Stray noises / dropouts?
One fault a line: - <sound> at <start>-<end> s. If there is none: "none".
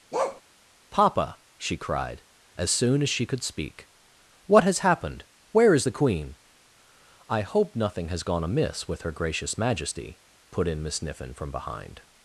- bark at 0.1-0.4 s